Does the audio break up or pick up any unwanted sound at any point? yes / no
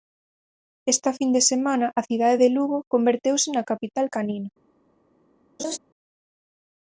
yes